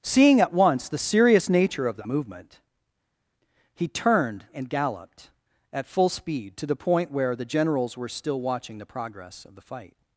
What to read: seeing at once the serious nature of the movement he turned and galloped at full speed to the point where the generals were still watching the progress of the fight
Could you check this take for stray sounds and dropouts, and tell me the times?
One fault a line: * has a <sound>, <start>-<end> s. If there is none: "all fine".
all fine